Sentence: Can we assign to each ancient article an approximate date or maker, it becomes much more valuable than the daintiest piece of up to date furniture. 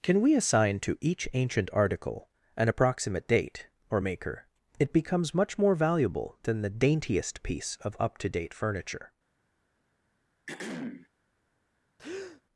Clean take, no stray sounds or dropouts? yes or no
no